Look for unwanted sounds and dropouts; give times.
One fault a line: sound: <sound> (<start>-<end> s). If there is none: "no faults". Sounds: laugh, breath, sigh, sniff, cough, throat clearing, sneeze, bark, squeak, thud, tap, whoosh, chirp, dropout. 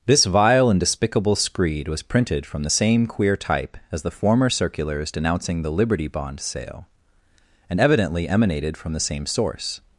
no faults